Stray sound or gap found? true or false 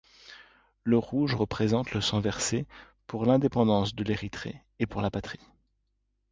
false